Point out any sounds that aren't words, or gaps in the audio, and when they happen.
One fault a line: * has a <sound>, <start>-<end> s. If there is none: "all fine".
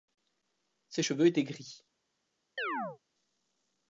* has a chirp, 2.6-3.0 s